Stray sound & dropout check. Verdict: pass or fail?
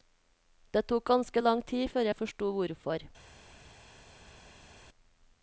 pass